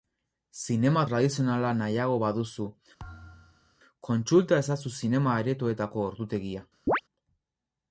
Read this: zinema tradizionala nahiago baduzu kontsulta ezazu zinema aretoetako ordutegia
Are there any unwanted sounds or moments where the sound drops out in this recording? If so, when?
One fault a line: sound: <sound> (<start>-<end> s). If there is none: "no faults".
sound: thud (3.0-3.8 s)
sound: chirp (6.9-7.0 s)